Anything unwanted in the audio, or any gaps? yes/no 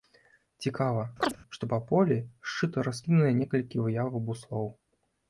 yes